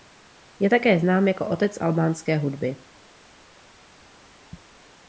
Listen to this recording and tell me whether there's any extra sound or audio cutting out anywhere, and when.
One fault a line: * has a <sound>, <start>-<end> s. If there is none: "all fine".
all fine